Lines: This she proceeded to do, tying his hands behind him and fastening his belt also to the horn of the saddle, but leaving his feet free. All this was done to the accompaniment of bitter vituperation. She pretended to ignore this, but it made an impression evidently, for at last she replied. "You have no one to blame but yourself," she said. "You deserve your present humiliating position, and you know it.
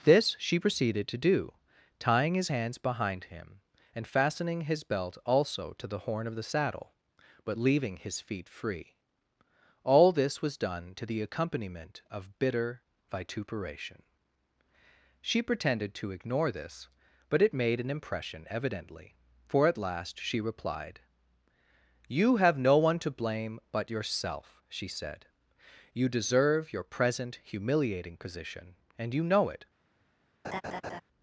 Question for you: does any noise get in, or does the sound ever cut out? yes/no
yes